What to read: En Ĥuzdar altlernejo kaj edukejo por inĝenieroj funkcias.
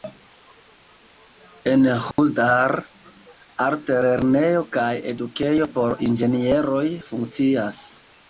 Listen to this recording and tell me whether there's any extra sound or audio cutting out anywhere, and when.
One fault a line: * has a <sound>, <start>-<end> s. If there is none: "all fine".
* has a dropout, 2.1-2.2 s